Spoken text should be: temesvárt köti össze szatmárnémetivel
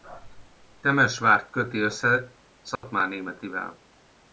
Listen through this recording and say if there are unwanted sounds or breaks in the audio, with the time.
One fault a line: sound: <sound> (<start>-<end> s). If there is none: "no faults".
sound: dropout (2.8-2.8 s)